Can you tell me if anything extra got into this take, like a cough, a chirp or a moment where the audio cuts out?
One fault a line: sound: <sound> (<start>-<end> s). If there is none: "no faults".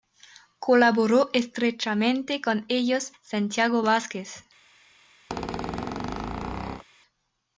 sound: squeak (5.3-6.8 s)